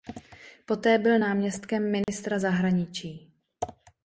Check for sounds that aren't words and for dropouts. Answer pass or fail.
fail